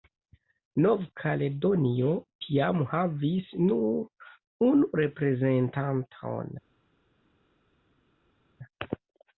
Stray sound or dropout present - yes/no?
no